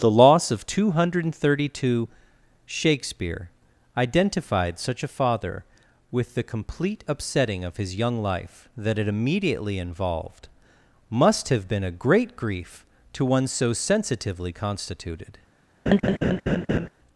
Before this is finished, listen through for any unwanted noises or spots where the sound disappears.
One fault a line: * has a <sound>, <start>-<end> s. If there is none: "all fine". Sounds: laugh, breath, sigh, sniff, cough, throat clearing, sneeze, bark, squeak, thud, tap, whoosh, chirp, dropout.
* has a laugh, 15.9-16.9 s